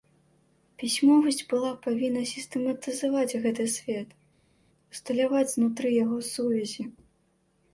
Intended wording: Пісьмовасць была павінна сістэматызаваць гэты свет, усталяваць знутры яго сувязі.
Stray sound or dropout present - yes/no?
no